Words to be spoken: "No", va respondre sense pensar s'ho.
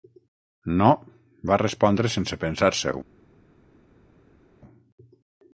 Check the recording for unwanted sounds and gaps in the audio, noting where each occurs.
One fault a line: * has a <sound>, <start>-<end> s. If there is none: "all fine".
all fine